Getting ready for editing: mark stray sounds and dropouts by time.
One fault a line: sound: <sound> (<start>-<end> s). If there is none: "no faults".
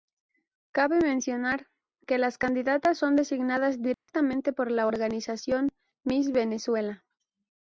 sound: dropout (3.9-4.1 s)